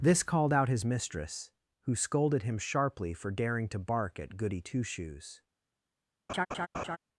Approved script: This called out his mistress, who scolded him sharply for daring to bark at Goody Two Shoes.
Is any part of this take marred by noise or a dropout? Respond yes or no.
yes